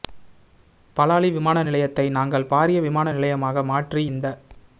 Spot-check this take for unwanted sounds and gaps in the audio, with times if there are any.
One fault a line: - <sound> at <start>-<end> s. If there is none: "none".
none